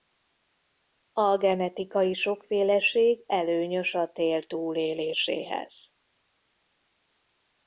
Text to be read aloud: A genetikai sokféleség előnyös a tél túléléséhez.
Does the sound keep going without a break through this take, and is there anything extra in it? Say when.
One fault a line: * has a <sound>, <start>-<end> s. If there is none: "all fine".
all fine